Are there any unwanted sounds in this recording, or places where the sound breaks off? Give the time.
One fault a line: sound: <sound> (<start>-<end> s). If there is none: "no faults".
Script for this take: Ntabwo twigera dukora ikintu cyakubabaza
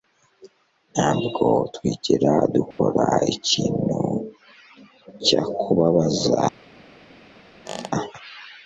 sound: dropout (2.7-2.8 s)
sound: squeak (7.7-7.9 s)